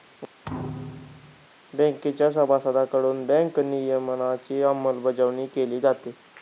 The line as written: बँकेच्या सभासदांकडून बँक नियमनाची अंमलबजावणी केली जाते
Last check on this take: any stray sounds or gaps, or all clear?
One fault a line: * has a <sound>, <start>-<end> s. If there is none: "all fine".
* has a thud, 0.4-1.5 s